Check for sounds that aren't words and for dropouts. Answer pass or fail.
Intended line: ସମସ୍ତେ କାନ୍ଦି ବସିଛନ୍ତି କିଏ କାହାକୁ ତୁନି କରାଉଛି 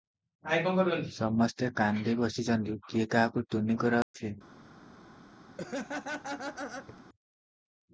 fail